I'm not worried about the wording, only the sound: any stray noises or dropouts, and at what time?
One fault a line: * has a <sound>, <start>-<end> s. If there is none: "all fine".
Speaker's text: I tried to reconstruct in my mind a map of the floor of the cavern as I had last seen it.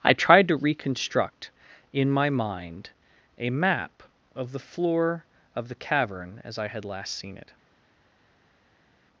all fine